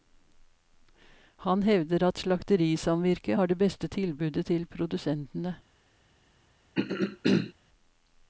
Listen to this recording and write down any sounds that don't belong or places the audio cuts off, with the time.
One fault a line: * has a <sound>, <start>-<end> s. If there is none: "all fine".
* has a throat clearing, 6.7-7.5 s